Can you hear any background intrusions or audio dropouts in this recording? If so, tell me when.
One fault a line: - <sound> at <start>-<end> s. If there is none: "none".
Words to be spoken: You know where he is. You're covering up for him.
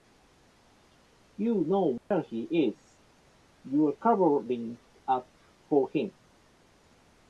- dropout at 2.0-2.1 s